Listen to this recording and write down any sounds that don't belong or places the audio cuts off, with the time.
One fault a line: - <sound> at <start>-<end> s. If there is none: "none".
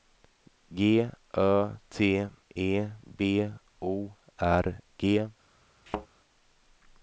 - thud at 5.9-6.1 s